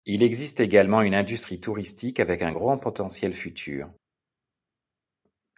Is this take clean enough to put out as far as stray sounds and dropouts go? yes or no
yes